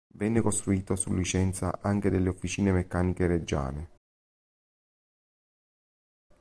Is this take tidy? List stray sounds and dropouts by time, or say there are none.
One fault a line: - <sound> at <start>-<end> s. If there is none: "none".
none